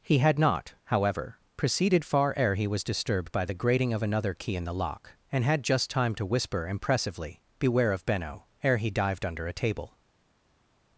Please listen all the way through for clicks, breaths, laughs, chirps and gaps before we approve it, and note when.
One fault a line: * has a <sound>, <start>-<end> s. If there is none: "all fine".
all fine